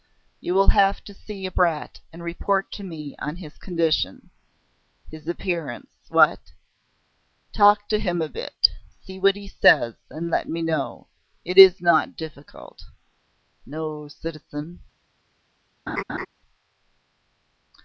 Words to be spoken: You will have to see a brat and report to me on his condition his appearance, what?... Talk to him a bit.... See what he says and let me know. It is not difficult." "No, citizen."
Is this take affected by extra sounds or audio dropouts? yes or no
yes